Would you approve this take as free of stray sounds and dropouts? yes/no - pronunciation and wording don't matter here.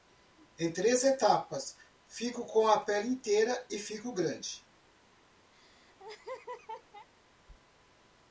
no